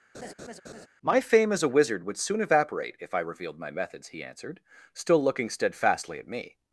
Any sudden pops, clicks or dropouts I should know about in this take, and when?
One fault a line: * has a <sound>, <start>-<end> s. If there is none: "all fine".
* has a laugh, 0.1-0.9 s